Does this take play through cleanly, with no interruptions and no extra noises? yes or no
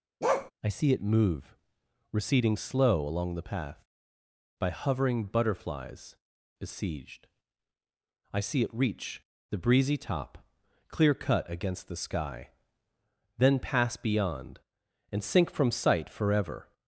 no